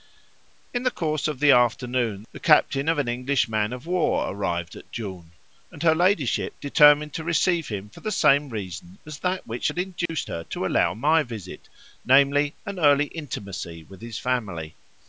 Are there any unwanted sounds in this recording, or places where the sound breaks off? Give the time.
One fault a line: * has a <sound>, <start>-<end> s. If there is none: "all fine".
* has a dropout, 10.1-10.1 s